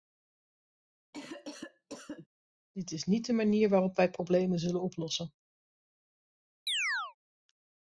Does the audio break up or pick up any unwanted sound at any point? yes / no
yes